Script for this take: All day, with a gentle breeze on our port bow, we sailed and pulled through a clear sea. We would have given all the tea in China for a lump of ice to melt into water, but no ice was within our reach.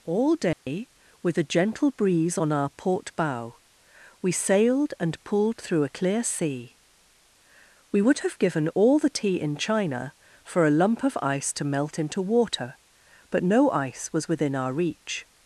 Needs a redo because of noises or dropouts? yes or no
yes